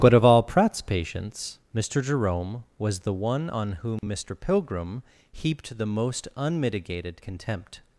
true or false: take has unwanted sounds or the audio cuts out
true